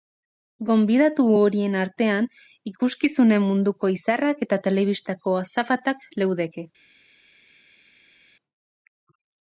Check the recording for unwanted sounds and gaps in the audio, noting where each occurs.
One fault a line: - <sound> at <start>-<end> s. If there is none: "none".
none